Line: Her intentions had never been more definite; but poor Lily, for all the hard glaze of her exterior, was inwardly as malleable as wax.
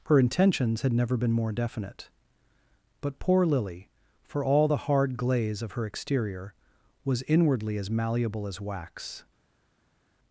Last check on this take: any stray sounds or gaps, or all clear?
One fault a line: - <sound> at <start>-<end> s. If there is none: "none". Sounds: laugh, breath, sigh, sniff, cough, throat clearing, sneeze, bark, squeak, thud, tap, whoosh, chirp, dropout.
none